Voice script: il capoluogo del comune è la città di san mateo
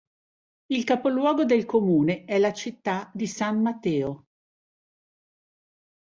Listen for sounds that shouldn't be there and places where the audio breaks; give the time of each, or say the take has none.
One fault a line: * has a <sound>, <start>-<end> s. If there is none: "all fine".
all fine